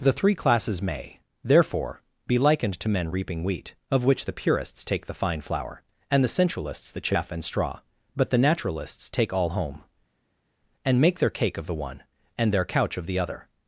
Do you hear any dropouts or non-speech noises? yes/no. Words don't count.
no